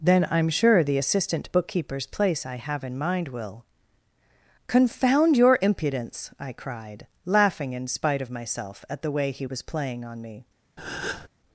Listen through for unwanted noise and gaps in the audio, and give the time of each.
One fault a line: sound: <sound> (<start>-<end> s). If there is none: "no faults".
sound: breath (10.8-11.3 s)